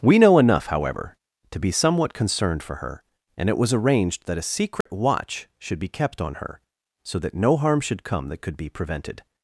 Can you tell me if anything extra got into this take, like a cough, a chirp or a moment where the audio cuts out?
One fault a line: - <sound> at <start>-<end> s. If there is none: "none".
- dropout at 4.8-4.9 s